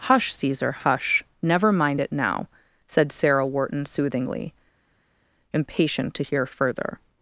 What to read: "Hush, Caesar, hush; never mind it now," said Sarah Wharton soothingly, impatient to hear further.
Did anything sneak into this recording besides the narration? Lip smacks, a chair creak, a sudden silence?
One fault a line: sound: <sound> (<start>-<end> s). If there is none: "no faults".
no faults